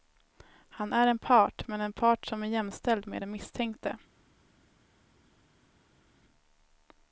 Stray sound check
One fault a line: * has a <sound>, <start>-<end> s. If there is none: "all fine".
all fine